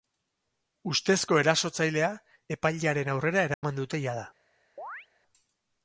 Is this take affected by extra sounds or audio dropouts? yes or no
yes